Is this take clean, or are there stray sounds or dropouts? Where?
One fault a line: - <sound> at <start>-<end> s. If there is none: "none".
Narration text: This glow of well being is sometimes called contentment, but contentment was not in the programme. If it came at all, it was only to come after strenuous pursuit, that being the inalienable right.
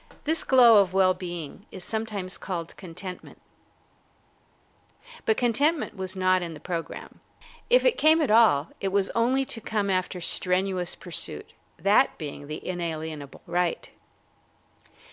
none